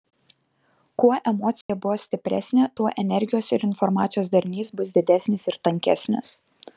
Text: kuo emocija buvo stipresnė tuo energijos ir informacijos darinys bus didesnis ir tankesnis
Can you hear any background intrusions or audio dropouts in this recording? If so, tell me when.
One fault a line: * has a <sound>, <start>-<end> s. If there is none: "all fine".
* has a dropout, 1.6-1.7 s